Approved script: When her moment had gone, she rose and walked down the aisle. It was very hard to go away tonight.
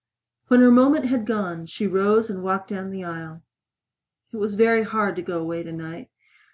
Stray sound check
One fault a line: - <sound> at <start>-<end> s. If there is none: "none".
none